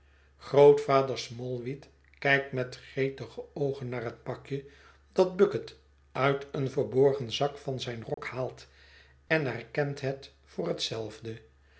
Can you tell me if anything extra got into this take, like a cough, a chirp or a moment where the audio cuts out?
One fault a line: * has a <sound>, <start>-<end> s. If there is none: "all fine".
* has a dropout, 8.1-8.2 s
* has a dropout, 9.3-9.3 s